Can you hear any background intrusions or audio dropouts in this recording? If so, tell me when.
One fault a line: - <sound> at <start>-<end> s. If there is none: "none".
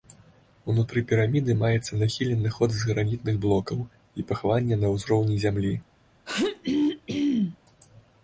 - throat clearing at 6.3-7.6 s